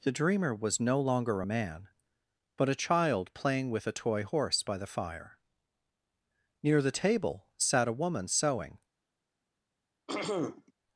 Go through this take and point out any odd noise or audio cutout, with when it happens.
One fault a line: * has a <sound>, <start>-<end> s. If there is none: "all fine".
* has a throat clearing, 10.1-10.7 s